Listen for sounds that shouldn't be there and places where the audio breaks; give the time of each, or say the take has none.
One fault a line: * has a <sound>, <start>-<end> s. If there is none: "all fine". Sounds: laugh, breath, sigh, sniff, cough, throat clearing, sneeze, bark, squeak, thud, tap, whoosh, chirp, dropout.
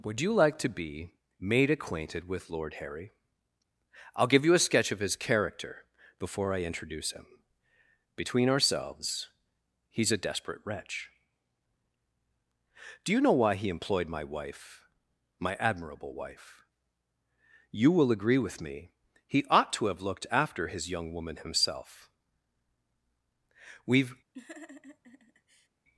* has a laugh, 24.3-25.7 s